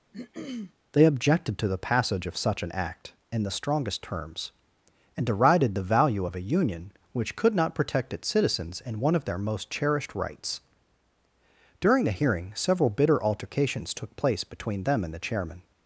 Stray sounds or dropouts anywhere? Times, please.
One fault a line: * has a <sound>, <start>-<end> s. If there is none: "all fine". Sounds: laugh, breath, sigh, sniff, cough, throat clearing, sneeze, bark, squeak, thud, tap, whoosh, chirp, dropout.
* has a throat clearing, 0.1-0.7 s